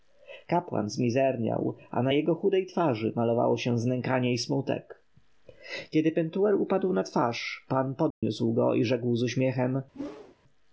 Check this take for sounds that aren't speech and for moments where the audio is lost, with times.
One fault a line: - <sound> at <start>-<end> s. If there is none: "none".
- dropout at 8.1-8.2 s
- whoosh at 9.9-10.4 s